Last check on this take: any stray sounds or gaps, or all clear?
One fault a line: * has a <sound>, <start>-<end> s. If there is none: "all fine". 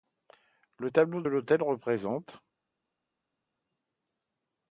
all fine